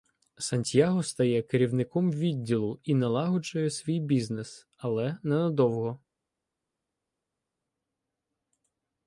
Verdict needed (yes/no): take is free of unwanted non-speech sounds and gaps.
yes